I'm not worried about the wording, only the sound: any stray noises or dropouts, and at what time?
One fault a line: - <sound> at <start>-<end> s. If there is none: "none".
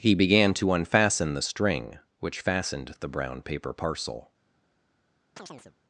- chirp at 5.4-5.8 s